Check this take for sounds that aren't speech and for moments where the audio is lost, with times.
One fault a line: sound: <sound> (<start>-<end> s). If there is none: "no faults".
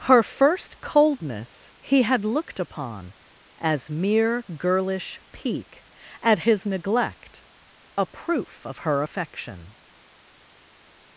no faults